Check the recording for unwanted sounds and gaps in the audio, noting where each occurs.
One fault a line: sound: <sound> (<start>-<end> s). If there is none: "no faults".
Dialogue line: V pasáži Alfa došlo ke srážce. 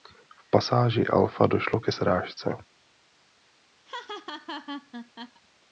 sound: laugh (3.8-5.4 s)